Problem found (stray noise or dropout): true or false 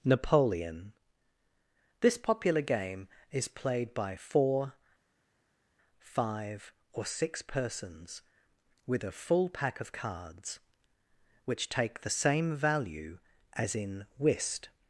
false